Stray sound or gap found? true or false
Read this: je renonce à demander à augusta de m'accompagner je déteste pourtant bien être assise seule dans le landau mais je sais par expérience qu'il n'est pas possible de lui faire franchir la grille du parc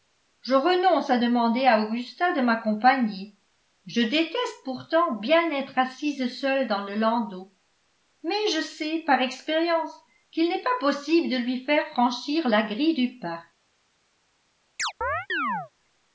true